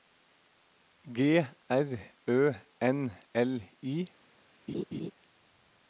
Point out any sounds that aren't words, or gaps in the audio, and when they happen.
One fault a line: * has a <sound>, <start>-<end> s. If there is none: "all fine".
* has a laugh, 4.7-5.1 s